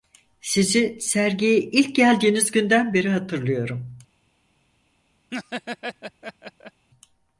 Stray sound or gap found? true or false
true